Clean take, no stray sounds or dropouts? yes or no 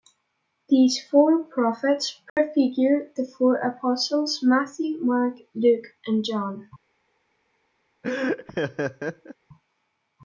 no